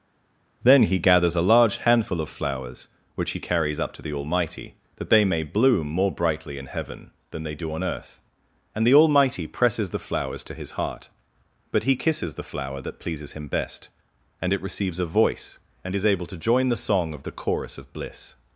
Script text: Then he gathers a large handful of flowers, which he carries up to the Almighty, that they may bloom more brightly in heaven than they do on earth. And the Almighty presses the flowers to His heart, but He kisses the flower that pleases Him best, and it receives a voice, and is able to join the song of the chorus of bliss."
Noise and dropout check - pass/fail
pass